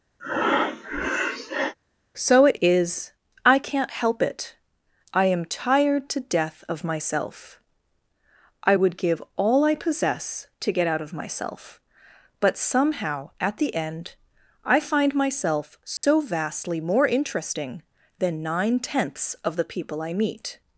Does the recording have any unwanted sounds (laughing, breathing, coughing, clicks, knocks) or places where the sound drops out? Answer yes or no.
yes